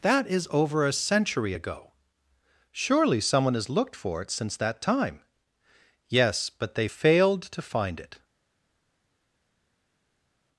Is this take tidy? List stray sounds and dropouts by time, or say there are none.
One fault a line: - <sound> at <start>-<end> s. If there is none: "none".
none